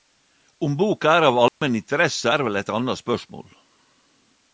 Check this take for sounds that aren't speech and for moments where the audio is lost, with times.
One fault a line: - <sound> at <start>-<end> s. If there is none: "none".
- dropout at 1.5-1.6 s